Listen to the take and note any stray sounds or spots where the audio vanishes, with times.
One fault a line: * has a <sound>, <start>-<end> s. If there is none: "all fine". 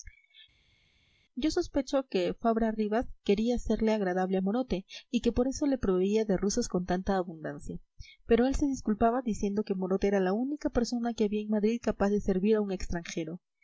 all fine